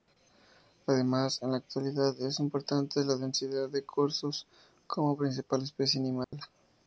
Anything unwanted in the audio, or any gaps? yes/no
yes